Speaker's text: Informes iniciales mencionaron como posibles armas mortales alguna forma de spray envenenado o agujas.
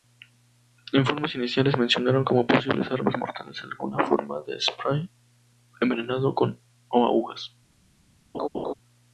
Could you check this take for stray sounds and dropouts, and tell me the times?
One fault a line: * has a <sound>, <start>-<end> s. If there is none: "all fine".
* has a laugh, 8.3-8.7 s